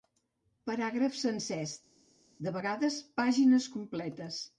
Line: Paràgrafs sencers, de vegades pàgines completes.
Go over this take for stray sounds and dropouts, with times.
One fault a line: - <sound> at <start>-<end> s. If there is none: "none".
none